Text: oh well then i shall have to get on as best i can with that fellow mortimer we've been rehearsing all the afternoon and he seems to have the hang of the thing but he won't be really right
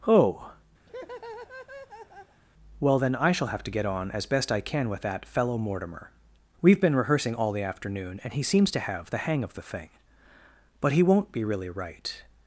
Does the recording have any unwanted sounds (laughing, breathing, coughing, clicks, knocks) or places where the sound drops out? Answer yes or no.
yes